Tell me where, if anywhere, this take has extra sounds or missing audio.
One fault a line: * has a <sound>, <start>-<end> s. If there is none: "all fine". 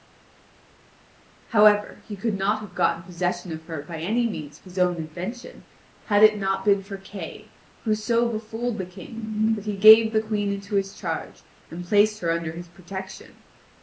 all fine